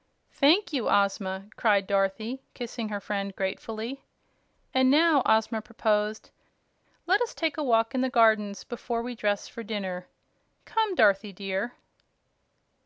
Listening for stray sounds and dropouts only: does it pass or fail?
pass